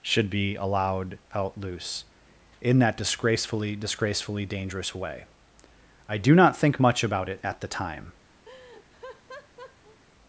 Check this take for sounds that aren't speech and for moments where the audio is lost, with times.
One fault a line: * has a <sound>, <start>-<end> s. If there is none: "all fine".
* has a laugh, 8.4-10.0 s